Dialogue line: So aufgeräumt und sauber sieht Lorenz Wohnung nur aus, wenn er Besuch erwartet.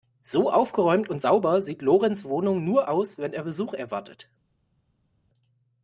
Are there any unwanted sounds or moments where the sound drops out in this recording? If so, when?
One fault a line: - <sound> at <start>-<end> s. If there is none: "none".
none